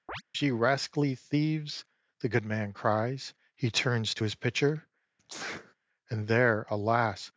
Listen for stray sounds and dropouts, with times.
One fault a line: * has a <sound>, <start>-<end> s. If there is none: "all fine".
* has a chirp, 0.1-0.2 s
* has a sneeze, 5.2-5.8 s